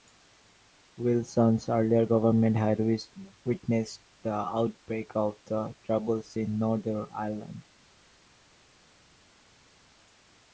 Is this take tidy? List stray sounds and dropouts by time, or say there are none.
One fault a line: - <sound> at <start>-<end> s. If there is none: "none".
none